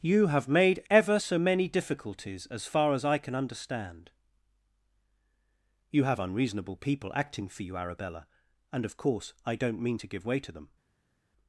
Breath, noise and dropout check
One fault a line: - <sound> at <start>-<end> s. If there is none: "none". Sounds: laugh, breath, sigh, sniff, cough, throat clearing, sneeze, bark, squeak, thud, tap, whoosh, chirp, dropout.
none